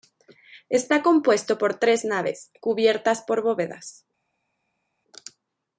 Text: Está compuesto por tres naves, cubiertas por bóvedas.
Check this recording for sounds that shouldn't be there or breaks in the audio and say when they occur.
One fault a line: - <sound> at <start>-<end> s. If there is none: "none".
none